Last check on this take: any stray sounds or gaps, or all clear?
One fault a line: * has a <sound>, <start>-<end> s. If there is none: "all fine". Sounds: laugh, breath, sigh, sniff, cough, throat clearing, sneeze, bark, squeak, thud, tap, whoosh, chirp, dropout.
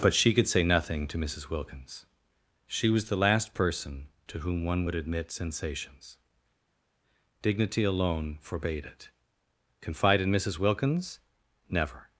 all fine